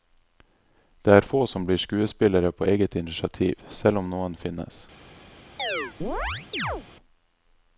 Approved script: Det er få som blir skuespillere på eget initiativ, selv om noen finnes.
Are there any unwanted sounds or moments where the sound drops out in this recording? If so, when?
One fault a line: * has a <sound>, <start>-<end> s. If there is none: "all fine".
* has a chirp, 5.6-6.9 s